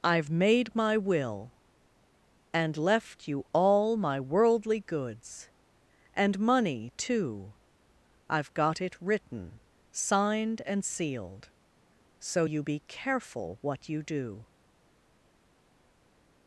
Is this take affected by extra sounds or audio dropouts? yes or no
no